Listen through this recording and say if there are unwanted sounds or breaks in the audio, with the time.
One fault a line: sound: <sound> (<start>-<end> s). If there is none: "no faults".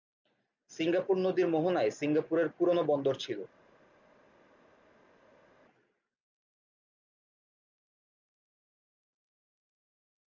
no faults